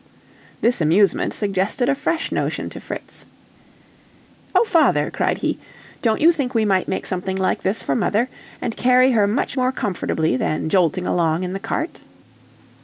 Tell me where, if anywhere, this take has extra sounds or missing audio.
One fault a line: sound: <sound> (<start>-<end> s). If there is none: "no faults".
no faults